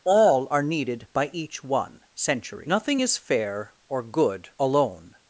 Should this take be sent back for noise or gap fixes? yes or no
no